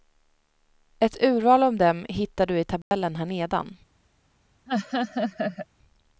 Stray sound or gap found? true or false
true